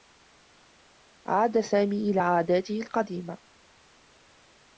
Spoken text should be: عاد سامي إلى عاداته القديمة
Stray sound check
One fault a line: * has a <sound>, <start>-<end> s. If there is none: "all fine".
all fine